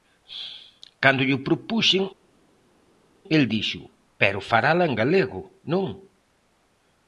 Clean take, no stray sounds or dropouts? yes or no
yes